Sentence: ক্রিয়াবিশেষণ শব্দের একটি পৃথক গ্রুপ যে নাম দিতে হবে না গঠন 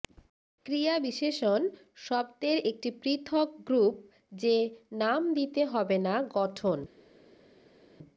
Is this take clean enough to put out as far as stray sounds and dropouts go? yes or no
yes